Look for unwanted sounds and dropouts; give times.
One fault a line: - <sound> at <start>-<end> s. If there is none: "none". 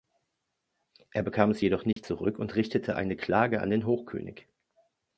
- dropout at 1.9-2.0 s